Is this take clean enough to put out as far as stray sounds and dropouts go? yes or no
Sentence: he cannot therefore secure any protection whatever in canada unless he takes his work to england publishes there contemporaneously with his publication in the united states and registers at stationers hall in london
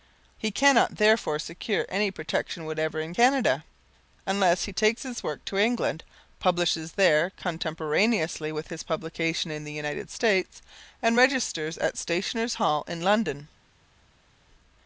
yes